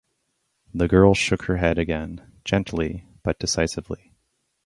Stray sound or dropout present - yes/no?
no